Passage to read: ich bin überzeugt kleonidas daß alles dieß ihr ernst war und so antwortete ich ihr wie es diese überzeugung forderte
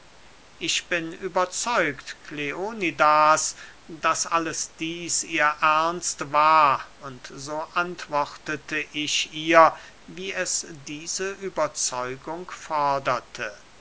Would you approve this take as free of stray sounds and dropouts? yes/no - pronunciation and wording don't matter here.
yes